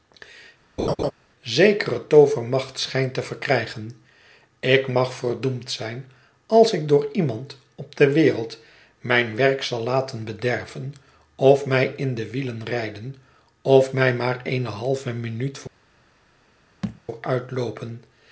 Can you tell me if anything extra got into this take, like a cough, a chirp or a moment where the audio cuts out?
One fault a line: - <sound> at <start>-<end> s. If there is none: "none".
- laugh at 0.8-1.1 s
- thud at 16.8-17.0 s